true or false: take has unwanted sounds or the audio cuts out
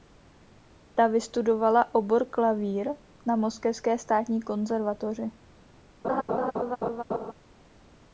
true